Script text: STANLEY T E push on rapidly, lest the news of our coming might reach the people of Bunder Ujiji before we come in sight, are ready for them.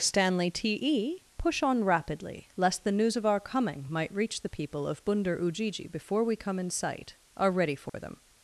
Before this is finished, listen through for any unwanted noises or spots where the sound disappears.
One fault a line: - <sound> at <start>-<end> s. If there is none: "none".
- dropout at 7.9-7.9 s